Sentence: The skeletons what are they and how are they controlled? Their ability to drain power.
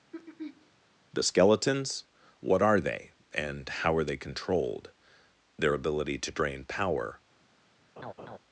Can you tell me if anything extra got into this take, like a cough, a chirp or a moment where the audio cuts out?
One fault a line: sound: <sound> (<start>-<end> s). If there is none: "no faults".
sound: throat clearing (0.1-0.7 s)
sound: laugh (8.0-8.4 s)